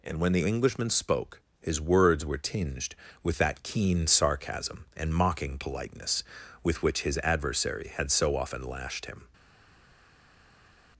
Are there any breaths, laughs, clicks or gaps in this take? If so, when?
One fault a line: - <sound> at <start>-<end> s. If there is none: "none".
none